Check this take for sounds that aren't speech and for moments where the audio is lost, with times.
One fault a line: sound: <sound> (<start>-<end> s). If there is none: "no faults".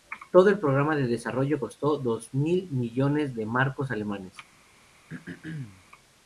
sound: throat clearing (5.1-5.9 s)